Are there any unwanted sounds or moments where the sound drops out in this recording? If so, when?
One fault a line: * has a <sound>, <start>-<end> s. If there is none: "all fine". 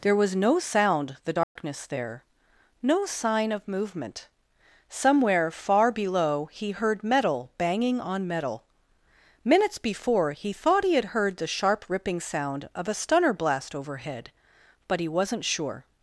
* has a dropout, 1.4-1.6 s